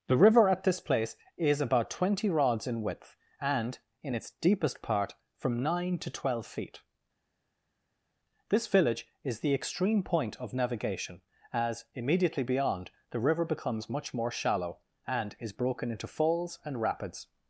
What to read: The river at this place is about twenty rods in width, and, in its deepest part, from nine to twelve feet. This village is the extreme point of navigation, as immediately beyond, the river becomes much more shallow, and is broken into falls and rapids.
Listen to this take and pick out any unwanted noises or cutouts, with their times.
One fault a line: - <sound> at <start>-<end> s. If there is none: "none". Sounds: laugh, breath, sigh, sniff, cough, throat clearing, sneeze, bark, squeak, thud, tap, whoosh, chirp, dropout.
none